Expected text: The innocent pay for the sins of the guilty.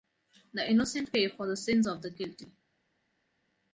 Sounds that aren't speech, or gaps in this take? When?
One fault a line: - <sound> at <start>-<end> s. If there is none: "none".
none